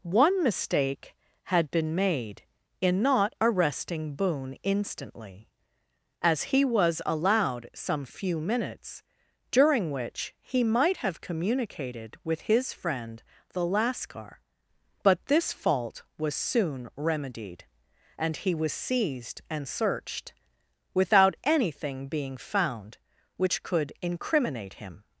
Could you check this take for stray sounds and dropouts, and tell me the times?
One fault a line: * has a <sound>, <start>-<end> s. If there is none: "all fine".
all fine